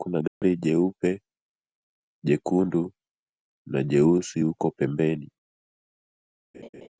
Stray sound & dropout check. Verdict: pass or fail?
fail